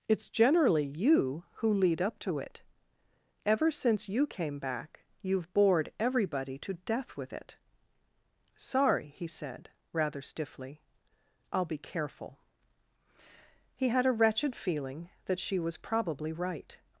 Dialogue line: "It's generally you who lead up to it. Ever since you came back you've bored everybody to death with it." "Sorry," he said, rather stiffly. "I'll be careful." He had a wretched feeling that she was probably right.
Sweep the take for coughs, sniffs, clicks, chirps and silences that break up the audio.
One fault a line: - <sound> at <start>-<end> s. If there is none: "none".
none